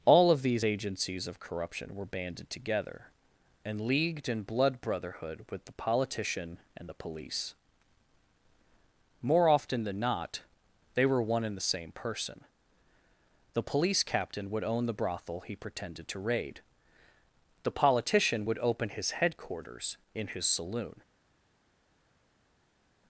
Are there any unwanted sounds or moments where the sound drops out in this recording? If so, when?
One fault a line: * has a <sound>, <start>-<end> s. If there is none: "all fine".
all fine